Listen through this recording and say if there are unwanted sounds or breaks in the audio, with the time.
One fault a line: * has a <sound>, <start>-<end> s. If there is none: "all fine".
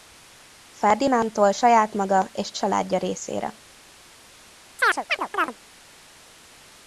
* has a chirp, 4.8-5.6 s